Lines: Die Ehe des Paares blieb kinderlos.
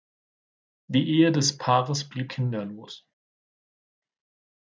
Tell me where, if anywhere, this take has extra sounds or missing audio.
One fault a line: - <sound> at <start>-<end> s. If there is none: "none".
none